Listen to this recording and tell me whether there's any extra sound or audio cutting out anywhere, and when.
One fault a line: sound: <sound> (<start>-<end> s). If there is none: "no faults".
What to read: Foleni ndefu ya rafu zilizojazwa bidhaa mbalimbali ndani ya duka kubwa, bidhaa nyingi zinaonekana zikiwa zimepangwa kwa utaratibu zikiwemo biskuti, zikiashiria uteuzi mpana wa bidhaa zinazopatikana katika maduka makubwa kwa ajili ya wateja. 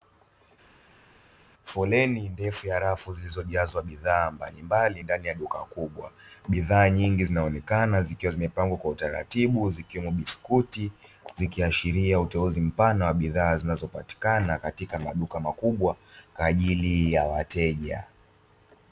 no faults